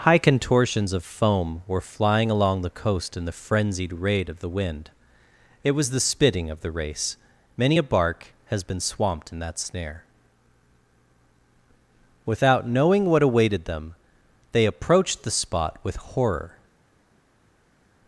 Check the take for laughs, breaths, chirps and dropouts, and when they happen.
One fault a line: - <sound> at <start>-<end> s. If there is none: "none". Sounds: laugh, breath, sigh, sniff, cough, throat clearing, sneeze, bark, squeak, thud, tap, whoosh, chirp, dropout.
none